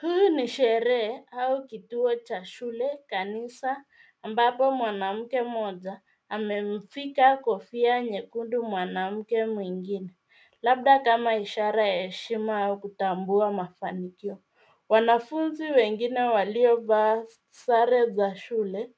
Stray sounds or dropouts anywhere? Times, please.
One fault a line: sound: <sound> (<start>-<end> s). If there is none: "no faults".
no faults